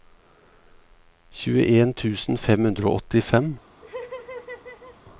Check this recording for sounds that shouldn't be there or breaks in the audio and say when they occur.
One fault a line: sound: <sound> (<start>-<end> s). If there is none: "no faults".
sound: laugh (3.8-5.0 s)